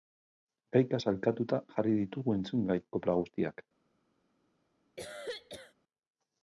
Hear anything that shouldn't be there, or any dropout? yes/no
yes